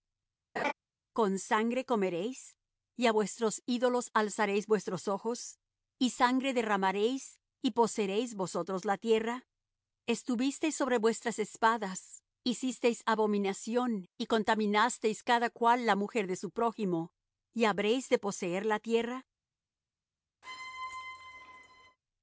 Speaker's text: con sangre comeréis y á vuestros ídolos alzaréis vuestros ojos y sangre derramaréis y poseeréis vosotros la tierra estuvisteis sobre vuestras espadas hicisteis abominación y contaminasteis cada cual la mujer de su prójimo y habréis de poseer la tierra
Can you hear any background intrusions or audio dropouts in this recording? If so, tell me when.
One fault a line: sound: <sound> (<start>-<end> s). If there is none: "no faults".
sound: laugh (0.6-0.7 s)
sound: squeak (20.4-22.0 s)